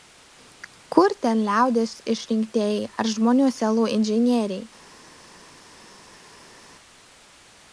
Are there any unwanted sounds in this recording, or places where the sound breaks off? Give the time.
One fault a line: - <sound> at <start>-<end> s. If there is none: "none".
none